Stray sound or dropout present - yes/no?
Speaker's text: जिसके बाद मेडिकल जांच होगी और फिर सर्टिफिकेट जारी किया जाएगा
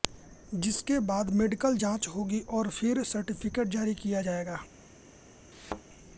yes